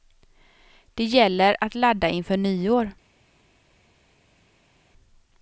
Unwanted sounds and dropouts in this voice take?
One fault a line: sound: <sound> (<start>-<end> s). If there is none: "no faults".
no faults